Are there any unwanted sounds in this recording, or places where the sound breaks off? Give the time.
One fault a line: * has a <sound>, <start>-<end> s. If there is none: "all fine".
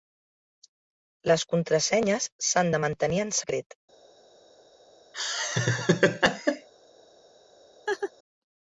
* has a laugh, 5.1-6.7 s
* has a laugh, 7.9-8.1 s